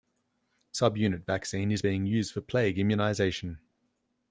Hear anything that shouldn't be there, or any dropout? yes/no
no